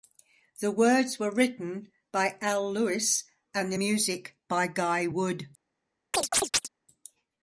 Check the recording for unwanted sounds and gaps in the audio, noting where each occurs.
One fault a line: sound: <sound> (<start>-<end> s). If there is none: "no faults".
sound: chirp (6.1-6.7 s)